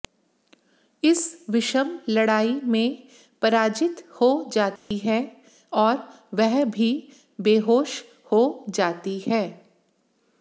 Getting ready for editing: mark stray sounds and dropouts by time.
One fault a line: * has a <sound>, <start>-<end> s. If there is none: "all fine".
* has a dropout, 4.8-4.9 s